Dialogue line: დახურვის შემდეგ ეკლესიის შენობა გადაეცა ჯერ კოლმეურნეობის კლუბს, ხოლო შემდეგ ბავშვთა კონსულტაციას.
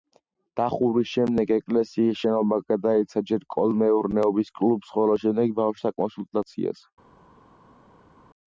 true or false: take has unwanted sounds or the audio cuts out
false